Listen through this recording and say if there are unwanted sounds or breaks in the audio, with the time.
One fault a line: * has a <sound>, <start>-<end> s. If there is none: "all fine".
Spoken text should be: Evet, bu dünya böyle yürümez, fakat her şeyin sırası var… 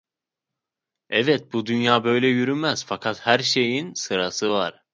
all fine